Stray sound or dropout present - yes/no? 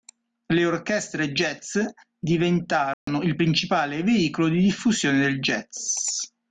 yes